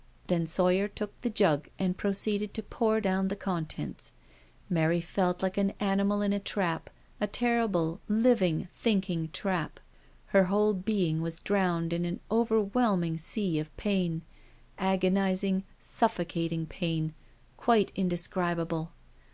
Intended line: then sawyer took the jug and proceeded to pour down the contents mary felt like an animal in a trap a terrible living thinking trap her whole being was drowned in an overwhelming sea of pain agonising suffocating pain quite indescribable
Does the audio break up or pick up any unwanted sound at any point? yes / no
no